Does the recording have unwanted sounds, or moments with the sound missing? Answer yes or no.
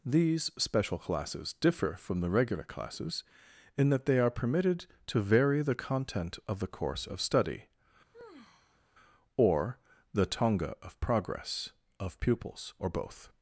yes